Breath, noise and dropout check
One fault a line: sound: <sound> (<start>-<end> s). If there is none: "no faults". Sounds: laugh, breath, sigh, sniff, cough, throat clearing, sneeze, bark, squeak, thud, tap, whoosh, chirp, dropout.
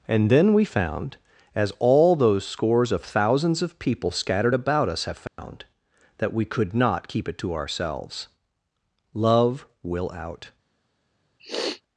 sound: dropout (5.3-5.4 s)
sound: sniff (11.4-11.8 s)